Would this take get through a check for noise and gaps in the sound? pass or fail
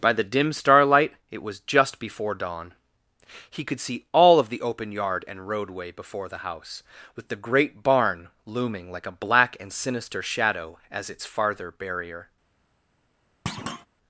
fail